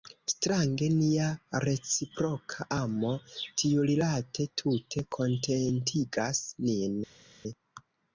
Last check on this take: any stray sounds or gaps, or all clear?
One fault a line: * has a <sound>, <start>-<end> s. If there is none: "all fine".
all fine